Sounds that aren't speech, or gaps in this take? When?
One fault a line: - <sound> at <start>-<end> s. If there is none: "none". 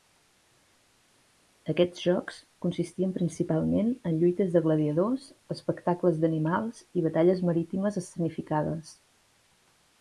none